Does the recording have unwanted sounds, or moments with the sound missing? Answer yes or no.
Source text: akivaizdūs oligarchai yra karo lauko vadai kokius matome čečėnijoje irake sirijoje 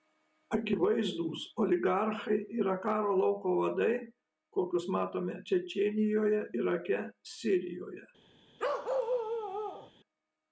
yes